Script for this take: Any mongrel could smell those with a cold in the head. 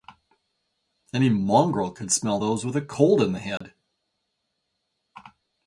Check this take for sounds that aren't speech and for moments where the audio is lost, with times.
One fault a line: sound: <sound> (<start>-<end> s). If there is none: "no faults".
sound: dropout (3.6-3.6 s)